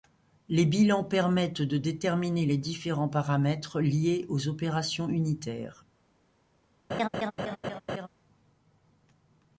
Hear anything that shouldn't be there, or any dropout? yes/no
yes